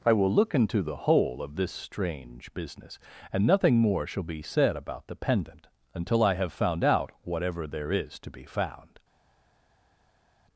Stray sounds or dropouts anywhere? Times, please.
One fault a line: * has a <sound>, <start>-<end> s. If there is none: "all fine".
all fine